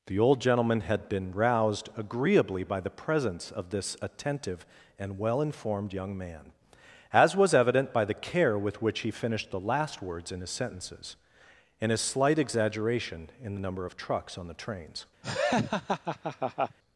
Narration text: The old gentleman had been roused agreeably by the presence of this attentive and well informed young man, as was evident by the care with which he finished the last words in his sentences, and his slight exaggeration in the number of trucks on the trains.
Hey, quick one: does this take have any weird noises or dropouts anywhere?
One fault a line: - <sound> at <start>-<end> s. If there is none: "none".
- laugh at 15.2-16.8 s